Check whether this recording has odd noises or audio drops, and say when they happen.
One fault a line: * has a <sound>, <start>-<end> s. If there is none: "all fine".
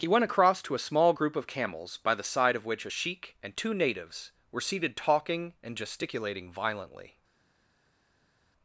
all fine